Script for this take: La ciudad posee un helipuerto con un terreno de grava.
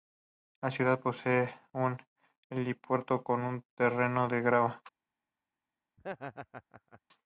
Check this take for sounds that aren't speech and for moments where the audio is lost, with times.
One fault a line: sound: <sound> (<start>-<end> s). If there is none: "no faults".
sound: laugh (6.0-7.0 s)